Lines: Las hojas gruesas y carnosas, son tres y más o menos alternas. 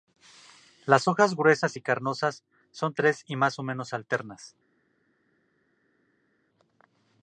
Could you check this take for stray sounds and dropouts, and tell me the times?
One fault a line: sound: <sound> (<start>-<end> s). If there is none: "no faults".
no faults